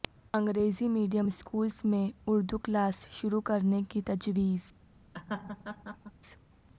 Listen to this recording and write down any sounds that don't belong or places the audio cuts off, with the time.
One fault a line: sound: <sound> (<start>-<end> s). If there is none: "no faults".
sound: laugh (5.1-6.1 s)